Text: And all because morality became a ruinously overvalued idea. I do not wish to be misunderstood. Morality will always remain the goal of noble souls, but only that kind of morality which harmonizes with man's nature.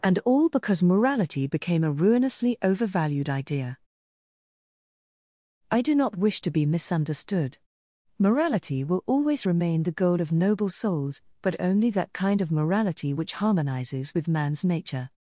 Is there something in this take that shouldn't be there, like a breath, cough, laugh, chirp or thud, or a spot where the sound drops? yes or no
no